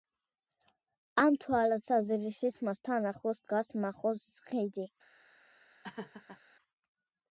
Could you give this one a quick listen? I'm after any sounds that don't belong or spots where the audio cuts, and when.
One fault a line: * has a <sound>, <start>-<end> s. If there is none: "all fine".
* has a laugh, 5.8-6.4 s